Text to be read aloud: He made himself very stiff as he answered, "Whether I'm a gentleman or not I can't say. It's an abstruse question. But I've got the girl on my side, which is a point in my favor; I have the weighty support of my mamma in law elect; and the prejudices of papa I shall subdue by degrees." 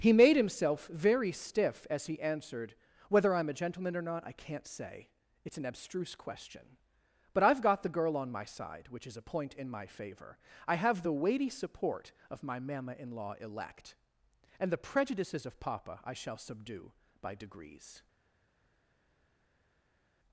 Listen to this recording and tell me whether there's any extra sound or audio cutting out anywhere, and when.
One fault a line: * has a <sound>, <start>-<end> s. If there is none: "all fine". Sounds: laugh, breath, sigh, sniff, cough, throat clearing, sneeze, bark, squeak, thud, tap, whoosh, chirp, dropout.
all fine